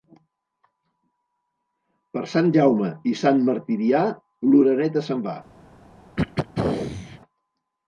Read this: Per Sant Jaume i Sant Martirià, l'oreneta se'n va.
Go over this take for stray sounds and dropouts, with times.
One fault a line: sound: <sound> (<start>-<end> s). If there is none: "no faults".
sound: throat clearing (6.2-7.2 s)